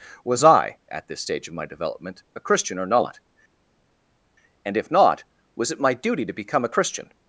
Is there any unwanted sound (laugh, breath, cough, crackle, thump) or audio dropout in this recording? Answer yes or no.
no